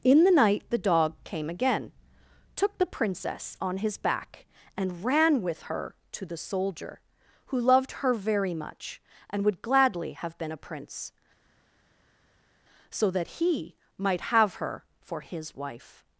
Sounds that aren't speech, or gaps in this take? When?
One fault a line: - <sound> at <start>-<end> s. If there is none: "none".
none